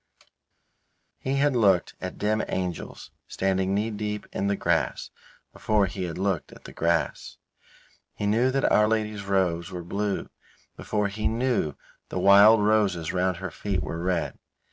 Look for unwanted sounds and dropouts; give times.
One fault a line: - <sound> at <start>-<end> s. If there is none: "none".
none